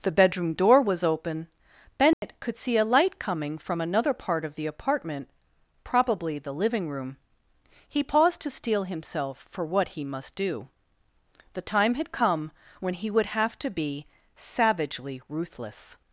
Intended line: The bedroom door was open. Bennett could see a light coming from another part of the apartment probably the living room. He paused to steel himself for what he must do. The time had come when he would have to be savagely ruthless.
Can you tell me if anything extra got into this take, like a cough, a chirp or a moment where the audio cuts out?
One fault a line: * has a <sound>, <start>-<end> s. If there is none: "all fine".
* has a dropout, 2.1-2.2 s